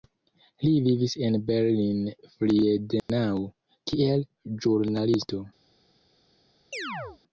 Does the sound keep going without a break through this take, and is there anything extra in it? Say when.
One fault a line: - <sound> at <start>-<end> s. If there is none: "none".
- dropout at 3.0-3.1 s
- chirp at 6.7-7.2 s